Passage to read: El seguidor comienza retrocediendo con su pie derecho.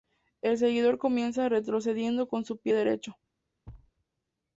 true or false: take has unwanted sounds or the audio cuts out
true